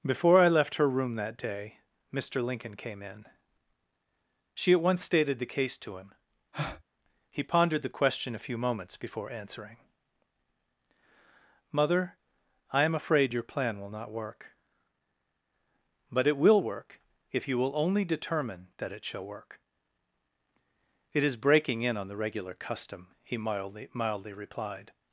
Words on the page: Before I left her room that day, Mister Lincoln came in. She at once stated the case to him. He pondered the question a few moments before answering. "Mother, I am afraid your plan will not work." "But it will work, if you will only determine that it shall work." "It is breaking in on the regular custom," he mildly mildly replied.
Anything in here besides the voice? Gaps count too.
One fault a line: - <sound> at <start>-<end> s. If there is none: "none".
- breath at 6.5-6.8 s